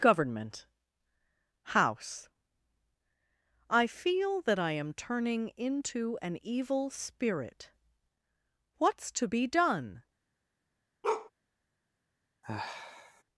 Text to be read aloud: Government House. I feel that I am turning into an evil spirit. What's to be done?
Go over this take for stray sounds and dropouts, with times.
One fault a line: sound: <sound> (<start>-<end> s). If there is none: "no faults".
sound: bark (11.0-11.3 s)
sound: sigh (12.4-13.2 s)